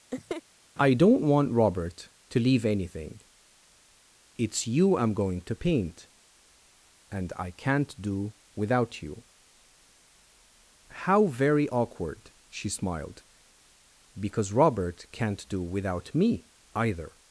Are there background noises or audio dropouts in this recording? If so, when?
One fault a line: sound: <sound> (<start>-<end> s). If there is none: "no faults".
sound: laugh (0.1-0.4 s)